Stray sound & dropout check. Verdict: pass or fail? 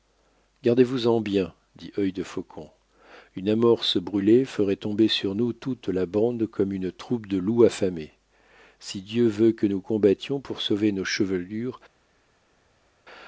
pass